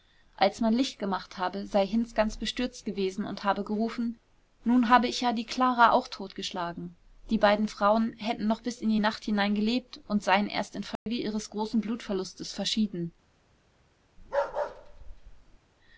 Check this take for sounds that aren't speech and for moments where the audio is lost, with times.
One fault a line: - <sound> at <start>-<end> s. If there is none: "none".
- dropout at 11.0-11.1 s
- bark at 14.2-15.6 s